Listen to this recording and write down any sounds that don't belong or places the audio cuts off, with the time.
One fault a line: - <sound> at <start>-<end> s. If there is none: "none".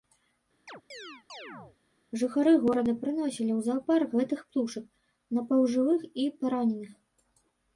- chirp at 0.7-1.8 s